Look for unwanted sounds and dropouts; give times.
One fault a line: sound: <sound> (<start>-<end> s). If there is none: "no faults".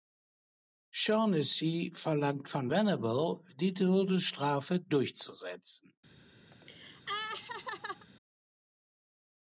sound: laugh (6.5-8.1 s)